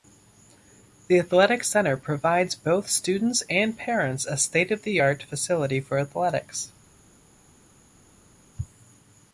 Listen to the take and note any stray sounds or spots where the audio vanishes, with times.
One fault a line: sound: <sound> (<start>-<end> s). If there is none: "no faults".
no faults